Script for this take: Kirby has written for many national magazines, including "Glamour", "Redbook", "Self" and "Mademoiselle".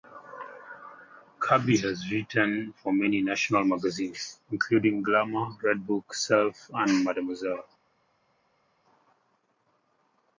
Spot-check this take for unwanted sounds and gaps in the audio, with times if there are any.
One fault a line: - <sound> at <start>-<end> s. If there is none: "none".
none